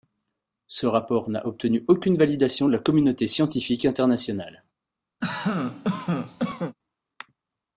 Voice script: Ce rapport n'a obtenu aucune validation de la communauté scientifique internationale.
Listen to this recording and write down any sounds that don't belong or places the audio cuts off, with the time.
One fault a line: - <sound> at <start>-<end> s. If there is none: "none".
- cough at 5.2-6.8 s